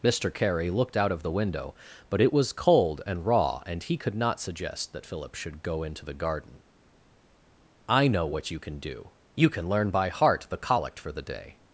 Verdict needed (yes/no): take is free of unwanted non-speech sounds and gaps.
yes